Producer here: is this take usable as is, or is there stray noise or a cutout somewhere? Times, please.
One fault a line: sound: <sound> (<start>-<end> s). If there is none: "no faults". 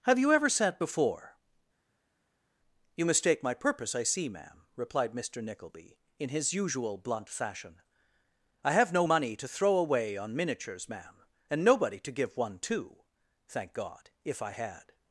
no faults